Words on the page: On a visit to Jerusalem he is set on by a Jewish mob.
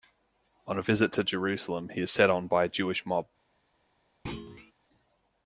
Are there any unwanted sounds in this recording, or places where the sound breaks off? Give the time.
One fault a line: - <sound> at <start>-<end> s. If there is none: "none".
- thud at 4.3-4.7 s